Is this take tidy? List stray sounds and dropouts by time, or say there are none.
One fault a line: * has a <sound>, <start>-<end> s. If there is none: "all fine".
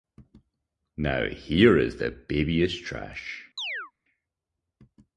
* has a chirp, 3.6-3.9 s